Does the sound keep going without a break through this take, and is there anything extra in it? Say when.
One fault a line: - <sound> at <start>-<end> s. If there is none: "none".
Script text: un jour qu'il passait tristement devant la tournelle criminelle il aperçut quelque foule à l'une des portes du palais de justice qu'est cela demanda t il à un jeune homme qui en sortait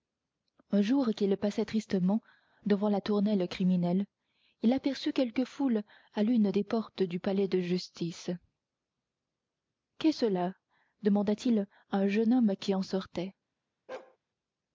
- bark at 13.9-14.2 s